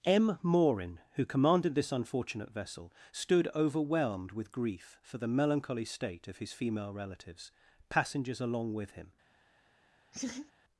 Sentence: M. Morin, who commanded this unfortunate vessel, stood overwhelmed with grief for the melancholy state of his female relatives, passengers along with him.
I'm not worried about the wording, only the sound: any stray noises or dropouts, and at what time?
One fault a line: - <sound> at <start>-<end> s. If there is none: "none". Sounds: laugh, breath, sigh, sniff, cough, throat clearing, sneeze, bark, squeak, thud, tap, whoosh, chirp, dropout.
- laugh at 10.1-10.5 s